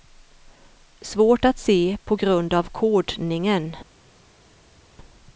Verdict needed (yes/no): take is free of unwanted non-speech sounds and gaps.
yes